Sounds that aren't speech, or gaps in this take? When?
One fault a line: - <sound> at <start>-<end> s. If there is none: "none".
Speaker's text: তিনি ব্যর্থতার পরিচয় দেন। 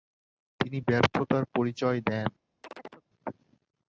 - chirp at 2.6-3.1 s